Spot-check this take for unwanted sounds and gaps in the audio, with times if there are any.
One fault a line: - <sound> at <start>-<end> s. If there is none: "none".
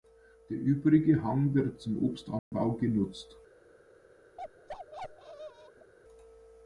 - dropout at 2.4-2.5 s
- bark at 4.4-5.9 s